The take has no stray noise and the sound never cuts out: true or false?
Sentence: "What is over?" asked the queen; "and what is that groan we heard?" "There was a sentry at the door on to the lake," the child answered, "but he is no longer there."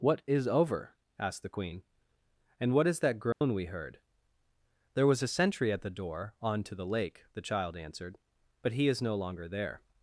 false